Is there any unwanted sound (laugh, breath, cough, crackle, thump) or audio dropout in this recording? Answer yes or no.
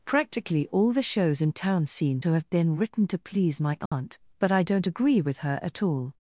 yes